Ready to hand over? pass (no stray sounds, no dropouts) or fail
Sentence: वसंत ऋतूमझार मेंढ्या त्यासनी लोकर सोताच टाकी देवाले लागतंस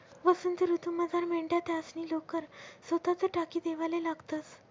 pass